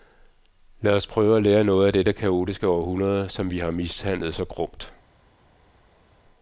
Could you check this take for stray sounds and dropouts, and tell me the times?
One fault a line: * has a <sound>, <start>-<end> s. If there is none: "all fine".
all fine